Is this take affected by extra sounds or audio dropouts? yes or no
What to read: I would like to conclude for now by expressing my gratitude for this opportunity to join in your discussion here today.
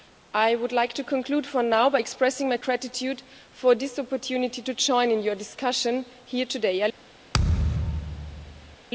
yes